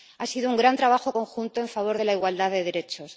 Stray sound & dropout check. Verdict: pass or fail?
pass